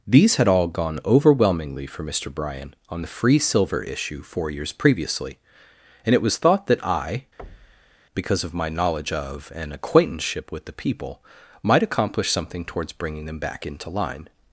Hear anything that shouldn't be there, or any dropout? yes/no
yes